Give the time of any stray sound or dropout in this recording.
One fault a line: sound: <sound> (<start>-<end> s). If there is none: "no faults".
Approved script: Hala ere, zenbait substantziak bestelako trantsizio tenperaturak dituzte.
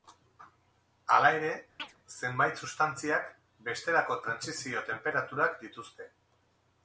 sound: chirp (1.8-2.0 s)